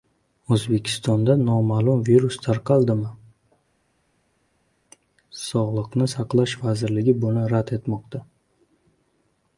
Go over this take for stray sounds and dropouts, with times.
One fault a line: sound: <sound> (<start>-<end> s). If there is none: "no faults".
no faults